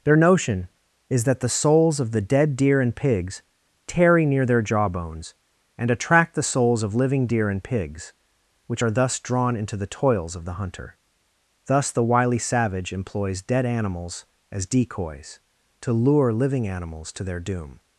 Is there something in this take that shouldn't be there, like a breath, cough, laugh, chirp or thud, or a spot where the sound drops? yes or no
no